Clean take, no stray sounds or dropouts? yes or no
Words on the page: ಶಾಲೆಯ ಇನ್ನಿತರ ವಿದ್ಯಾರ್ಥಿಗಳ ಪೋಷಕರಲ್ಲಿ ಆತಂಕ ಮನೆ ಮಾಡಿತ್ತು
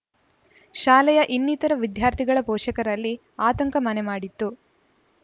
yes